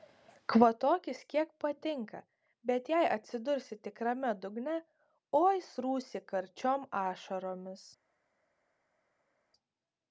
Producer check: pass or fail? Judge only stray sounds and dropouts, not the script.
pass